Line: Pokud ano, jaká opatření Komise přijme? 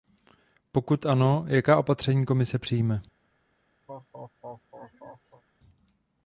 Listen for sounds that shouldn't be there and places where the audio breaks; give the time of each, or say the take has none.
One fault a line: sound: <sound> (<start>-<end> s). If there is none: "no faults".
sound: laugh (3.9-5.4 s)